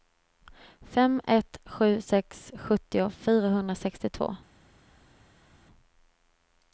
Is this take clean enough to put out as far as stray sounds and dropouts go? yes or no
yes